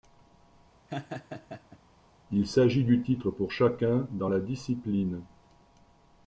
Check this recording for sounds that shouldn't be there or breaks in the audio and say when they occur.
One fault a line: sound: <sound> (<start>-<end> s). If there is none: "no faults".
sound: laugh (0.9-1.8 s)